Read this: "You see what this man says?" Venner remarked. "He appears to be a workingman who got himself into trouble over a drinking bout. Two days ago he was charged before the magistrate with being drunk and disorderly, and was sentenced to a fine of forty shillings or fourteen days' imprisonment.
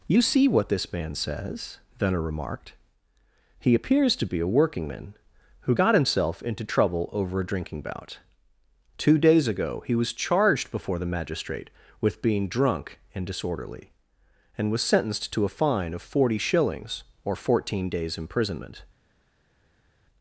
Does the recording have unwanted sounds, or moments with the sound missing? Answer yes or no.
no